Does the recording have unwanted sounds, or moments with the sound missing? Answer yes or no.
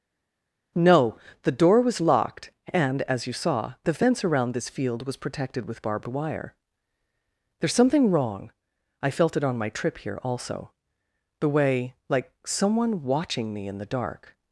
no